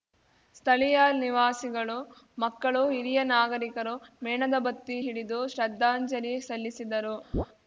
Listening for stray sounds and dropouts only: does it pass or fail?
fail